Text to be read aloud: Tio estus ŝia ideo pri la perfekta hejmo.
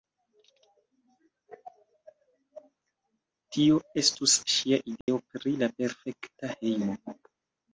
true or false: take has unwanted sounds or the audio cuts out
true